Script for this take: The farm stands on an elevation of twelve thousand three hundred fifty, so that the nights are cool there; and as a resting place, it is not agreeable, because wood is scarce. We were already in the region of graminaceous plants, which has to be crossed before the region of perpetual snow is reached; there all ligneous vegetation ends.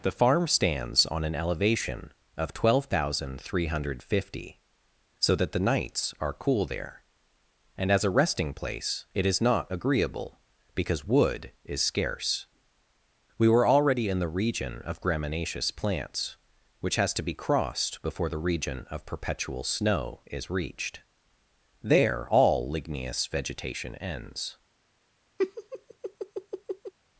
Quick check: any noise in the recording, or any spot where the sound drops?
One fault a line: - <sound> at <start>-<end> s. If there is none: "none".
- laugh at 25.4-26.9 s